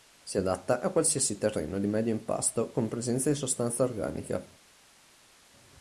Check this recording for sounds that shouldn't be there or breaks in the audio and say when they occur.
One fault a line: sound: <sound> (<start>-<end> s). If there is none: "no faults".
no faults